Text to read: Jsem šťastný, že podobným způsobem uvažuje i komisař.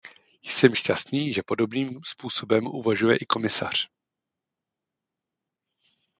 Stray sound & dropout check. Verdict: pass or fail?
pass